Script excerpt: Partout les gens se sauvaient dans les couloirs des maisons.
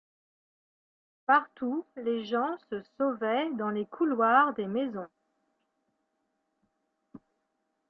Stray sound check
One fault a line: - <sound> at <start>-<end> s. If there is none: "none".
none